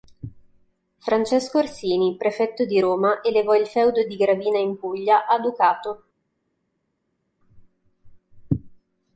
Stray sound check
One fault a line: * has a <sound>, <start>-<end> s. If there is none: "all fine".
all fine